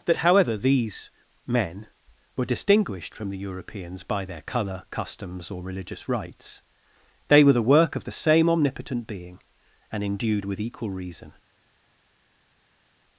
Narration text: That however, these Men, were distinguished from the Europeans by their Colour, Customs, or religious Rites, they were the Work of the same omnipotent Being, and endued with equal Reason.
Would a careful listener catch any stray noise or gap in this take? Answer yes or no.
no